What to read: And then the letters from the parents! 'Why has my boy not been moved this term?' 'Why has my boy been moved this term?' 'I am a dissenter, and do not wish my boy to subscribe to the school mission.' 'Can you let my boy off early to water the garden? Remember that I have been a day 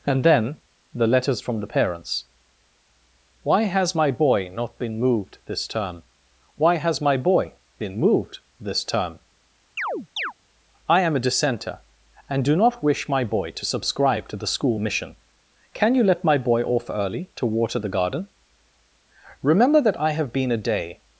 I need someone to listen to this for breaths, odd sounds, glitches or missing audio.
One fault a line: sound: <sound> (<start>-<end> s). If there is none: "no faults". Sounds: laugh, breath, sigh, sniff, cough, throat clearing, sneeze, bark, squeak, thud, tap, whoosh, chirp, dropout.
sound: chirp (9.8-10.3 s)